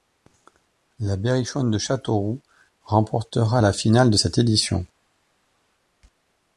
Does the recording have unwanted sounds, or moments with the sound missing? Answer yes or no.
no